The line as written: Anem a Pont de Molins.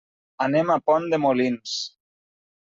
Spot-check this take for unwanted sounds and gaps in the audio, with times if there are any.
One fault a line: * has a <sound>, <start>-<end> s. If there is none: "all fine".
all fine